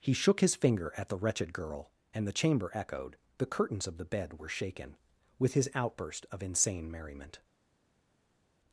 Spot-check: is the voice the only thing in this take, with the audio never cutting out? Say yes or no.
yes